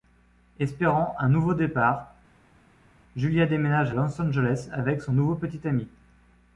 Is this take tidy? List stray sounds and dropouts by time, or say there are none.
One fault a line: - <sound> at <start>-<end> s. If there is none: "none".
none